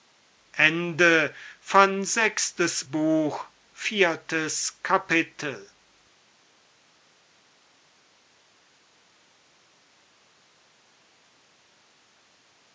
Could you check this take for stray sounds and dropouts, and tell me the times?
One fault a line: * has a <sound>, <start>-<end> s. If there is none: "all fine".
all fine